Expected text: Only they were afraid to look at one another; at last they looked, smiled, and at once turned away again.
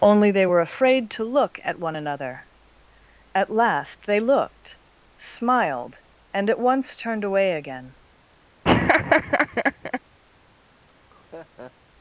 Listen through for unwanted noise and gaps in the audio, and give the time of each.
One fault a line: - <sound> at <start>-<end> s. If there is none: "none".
- laugh at 8.6-10.0 s
- laugh at 10.8-11.7 s